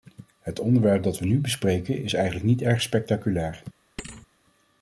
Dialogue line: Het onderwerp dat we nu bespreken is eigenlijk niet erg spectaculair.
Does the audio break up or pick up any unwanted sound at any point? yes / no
yes